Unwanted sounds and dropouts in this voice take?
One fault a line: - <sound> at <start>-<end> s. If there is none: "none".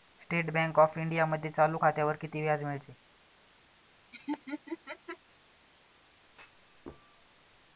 - laugh at 4.1-5.2 s
- thud at 6.3-7.5 s